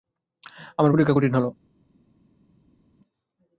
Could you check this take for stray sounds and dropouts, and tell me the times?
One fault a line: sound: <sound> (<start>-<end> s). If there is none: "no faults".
no faults